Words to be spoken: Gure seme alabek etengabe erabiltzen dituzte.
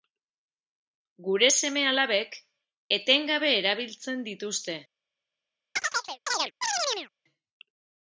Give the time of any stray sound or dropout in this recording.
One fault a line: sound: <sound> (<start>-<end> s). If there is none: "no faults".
sound: chirp (5.8-7.1 s)